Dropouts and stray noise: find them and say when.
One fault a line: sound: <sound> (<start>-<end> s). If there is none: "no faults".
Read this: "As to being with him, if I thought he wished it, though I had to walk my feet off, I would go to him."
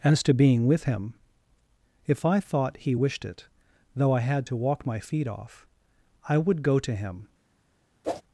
sound: whoosh (8.0-8.2 s)